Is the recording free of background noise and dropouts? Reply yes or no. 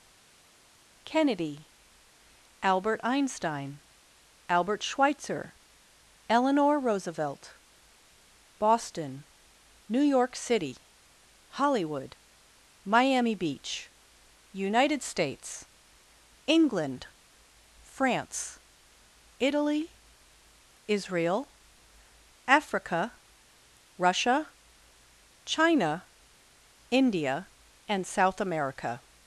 yes